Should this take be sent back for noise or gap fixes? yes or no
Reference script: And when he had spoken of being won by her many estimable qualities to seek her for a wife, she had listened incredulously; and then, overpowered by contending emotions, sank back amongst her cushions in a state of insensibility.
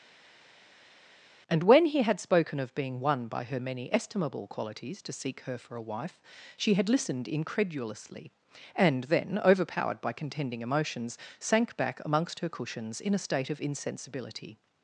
no